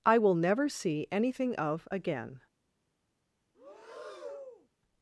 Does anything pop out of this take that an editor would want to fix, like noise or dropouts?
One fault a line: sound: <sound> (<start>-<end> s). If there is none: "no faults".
sound: breath (3.5-4.7 s)